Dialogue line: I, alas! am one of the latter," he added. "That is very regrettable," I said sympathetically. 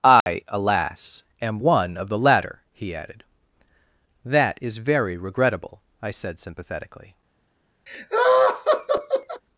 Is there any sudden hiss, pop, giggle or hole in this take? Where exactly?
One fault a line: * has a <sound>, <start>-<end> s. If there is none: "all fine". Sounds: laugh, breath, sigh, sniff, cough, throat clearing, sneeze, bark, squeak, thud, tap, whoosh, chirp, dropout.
* has a dropout, 0.2-0.3 s
* has a laugh, 7.9-9.4 s